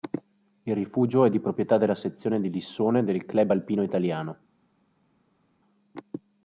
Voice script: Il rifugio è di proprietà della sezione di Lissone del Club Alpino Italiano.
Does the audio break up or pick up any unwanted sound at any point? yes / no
no